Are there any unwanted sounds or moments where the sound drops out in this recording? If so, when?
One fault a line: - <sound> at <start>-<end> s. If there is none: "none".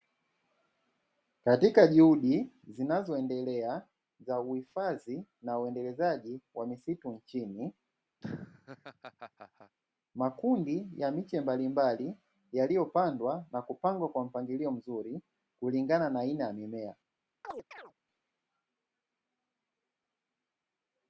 - laugh at 8.2-9.8 s
- chirp at 17.4-17.9 s